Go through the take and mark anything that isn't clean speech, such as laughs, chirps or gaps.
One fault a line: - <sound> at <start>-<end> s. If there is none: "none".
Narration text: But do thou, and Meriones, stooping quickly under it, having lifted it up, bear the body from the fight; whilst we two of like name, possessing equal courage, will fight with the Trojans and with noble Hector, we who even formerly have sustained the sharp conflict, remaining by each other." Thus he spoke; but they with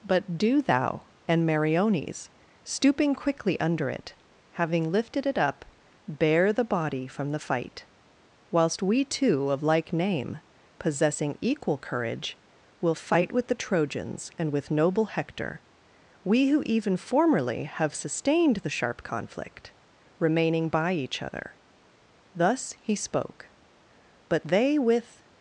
none